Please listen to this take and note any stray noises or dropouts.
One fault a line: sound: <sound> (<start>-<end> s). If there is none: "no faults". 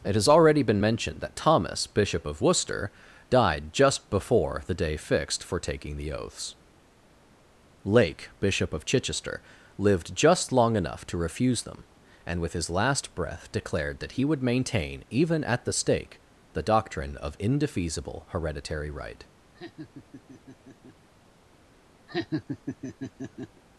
sound: laugh (19.5-21.1 s)
sound: laugh (22.1-23.6 s)